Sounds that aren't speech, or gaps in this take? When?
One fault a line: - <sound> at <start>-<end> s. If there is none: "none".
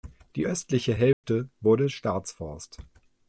- dropout at 1.1-1.2 s